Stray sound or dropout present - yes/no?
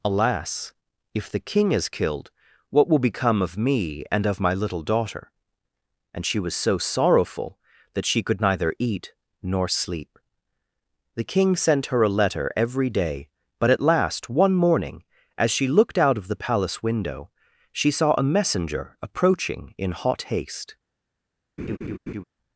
yes